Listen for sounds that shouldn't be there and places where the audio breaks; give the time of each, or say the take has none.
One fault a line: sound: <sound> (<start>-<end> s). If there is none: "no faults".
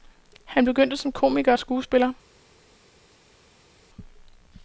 no faults